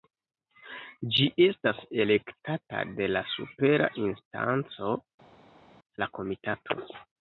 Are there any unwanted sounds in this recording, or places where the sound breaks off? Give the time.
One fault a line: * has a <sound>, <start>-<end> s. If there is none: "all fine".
all fine